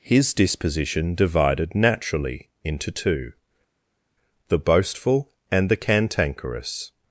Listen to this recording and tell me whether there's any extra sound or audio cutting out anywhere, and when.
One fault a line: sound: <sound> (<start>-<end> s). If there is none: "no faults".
no faults